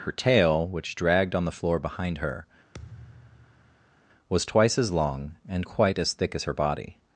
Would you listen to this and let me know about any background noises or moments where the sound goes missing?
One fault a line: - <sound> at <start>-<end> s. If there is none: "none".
- thud at 2.7-4.0 s